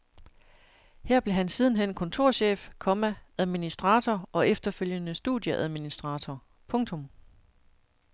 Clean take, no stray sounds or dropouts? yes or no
yes